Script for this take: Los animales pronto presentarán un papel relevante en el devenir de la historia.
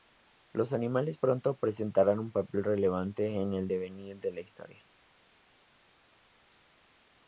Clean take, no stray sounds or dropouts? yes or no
yes